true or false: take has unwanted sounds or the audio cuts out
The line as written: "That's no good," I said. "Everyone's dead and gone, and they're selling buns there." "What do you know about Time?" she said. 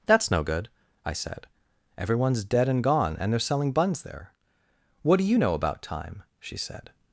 false